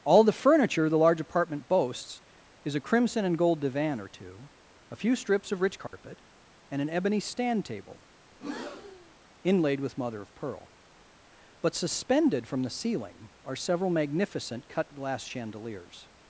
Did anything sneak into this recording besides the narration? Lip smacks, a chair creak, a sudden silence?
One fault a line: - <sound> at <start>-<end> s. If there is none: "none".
- dropout at 5.9-5.9 s
- breath at 8.3-9.1 s